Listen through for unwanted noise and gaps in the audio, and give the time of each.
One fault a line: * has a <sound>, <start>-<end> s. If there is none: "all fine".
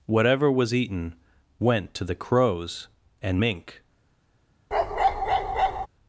* has a bark, 4.7-5.9 s